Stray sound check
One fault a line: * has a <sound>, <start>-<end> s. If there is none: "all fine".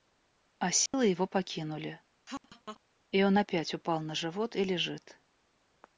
* has a dropout, 0.9-0.9 s
* has a laugh, 2.3-2.8 s